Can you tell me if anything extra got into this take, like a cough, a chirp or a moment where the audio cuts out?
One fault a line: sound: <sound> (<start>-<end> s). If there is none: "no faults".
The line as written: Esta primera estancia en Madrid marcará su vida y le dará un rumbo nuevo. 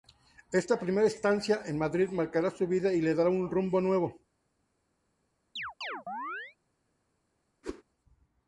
sound: chirp (5.6-6.6 s)
sound: whoosh (7.6-7.8 s)